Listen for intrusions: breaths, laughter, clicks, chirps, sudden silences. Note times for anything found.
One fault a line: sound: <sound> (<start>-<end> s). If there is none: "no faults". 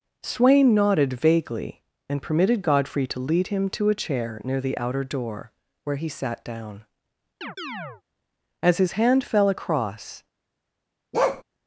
sound: chirp (7.4-8.0 s)
sound: bark (11.1-11.4 s)